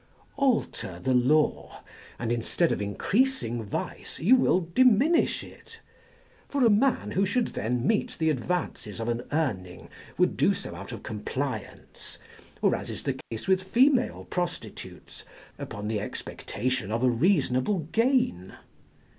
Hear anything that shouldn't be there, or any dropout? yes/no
yes